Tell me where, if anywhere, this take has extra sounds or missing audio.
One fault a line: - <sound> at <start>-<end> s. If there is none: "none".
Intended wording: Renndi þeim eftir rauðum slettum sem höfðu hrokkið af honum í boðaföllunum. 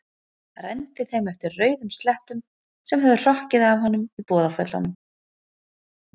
none